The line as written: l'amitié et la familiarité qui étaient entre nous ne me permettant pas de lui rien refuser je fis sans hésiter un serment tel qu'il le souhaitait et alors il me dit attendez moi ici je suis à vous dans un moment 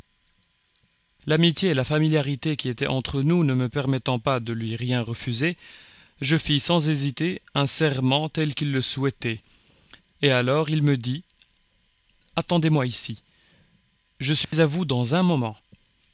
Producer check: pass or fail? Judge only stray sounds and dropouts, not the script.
fail